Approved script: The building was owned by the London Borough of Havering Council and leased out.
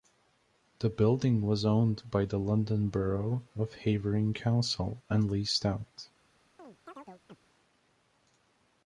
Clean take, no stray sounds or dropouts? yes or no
no